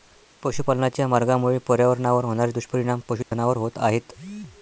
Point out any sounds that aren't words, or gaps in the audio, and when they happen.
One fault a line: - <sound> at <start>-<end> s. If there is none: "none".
- dropout at 3.2-3.3 s